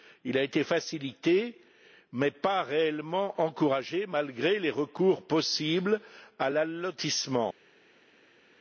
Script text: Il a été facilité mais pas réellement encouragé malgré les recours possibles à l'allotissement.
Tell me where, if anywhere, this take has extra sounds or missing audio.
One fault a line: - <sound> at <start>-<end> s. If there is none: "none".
none